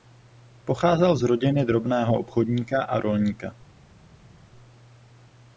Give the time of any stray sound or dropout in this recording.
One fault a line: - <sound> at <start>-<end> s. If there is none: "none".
none